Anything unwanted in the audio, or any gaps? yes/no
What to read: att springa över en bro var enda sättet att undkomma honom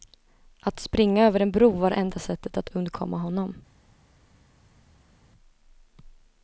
no